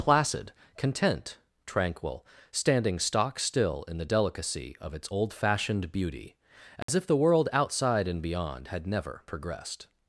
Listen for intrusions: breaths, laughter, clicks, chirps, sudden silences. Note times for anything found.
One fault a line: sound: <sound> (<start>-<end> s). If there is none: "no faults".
sound: dropout (6.8-6.9 s)